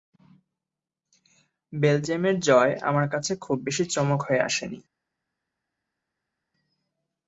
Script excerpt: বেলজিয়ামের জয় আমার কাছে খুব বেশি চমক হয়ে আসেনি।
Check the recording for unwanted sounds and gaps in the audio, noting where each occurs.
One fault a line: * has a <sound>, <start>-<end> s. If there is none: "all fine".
all fine